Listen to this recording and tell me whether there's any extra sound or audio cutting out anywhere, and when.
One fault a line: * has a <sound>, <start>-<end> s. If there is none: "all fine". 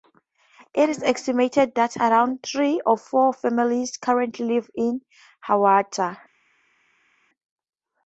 all fine